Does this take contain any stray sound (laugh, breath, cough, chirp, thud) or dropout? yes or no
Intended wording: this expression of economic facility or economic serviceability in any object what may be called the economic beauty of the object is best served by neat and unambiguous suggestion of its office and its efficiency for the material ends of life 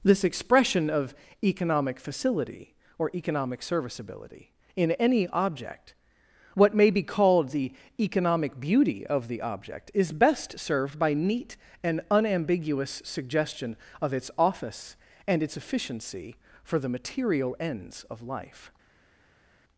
no